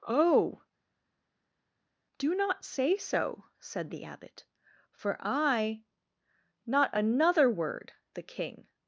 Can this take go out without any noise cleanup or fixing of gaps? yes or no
yes